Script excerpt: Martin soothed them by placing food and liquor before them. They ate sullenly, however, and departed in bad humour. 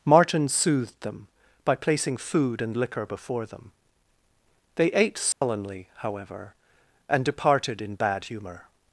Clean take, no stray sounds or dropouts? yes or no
no